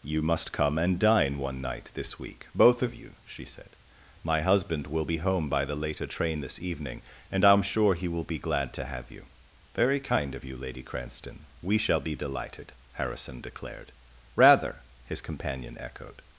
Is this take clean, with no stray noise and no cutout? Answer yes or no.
yes